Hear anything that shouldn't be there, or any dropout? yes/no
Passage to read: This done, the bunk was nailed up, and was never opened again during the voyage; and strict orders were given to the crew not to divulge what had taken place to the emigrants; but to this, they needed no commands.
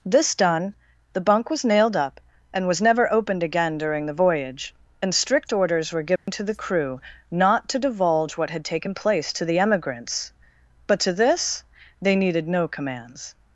yes